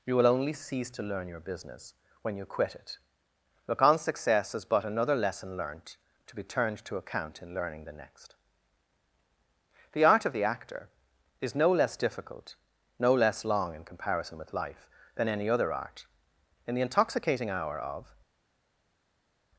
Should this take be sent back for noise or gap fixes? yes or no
no